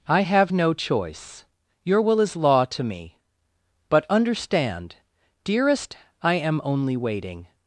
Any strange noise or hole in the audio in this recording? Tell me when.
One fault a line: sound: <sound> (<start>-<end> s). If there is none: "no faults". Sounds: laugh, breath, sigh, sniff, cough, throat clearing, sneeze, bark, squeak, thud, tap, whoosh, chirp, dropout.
no faults